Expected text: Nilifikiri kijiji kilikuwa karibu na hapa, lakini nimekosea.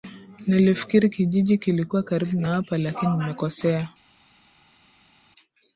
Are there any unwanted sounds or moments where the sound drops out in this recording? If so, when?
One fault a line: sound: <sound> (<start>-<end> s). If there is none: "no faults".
no faults